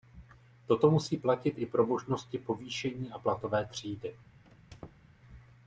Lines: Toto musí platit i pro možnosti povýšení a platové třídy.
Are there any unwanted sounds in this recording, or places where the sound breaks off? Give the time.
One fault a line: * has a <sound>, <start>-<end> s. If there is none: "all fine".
* has a squeak, 4.4-5.1 s